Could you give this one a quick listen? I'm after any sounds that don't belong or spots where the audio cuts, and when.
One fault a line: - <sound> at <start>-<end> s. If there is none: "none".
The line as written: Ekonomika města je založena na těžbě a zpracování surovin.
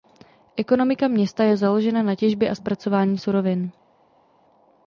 none